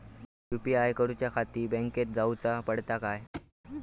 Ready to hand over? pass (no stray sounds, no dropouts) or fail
fail